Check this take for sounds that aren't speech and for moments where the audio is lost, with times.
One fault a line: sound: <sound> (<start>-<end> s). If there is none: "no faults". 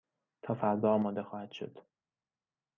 no faults